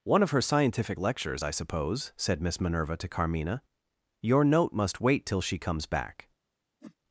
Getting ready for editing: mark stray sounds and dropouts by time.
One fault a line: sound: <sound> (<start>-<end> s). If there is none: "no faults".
sound: whoosh (6.8-7.0 s)